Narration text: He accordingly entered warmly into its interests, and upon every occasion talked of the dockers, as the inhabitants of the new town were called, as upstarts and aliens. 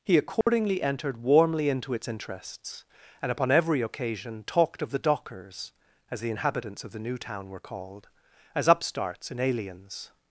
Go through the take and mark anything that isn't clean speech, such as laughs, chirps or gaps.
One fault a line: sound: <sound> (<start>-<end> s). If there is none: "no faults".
sound: dropout (0.4-0.5 s)